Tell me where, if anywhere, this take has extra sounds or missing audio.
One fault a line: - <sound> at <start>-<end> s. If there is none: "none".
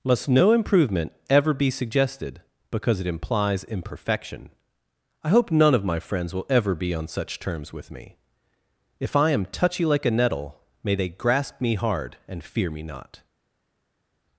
none